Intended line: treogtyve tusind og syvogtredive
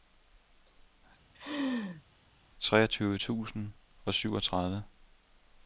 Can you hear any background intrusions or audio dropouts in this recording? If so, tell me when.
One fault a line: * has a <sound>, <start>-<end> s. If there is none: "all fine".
* has a laugh, 1.3-2.0 s